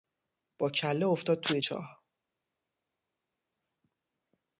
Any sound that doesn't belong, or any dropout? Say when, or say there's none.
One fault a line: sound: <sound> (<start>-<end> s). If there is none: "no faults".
no faults